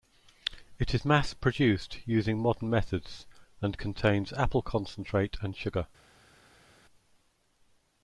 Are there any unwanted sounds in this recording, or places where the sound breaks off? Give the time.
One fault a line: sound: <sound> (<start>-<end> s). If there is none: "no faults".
no faults